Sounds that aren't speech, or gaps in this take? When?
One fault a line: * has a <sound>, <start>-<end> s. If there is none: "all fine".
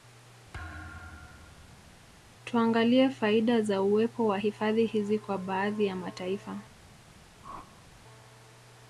* has a thud, 0.5-2.0 s
* has a whoosh, 7.4-7.9 s